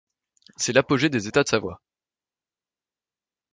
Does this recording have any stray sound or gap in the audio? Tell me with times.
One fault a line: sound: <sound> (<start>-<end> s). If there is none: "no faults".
no faults